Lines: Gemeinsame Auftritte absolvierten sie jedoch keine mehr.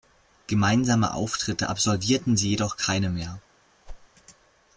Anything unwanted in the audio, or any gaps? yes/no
yes